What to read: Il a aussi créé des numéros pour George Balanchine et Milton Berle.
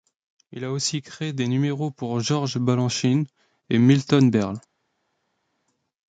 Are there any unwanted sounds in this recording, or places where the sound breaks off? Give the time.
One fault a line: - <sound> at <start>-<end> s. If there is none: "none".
none